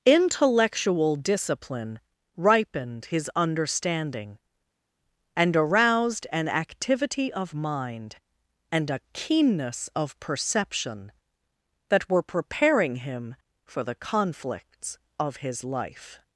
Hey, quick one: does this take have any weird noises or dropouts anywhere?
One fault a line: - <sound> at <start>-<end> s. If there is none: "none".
none